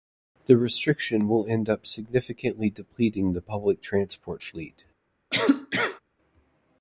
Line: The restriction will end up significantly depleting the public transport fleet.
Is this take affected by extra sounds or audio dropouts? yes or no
yes